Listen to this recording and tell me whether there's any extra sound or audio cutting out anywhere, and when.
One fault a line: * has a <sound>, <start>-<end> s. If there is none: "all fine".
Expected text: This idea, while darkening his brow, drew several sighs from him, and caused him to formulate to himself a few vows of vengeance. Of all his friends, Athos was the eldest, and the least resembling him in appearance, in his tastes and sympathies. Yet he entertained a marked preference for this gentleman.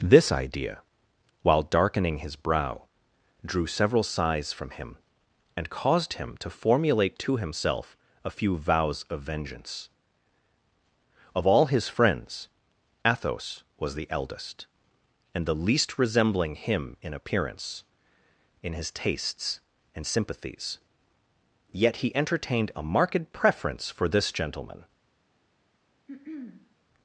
* has a throat clearing, 26.1-26.8 s